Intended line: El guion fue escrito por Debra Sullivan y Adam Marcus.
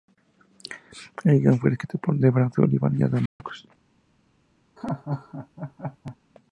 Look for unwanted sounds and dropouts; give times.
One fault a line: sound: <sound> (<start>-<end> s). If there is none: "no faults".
sound: dropout (3.3-3.4 s)
sound: laugh (4.8-6.2 s)